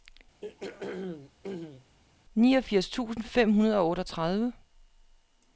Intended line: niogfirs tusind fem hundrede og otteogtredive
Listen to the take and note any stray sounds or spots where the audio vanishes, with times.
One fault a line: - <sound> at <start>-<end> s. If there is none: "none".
- throat clearing at 0.4-2.0 s